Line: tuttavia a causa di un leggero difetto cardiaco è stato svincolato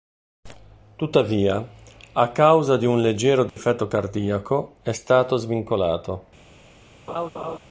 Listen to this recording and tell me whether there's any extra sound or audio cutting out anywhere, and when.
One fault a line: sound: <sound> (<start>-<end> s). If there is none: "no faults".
sound: dropout (3.5-3.6 s)
sound: laugh (7.1-7.6 s)